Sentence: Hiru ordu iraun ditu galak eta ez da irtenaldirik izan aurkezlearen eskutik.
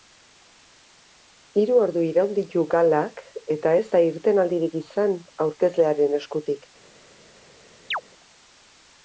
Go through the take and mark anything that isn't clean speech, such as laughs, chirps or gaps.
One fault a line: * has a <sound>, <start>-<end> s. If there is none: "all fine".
* has a chirp, 7.9-8.0 s